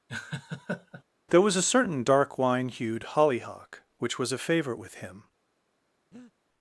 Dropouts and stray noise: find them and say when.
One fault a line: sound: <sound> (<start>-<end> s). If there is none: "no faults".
sound: laugh (0.1-1.0 s)
sound: breath (6.1-6.3 s)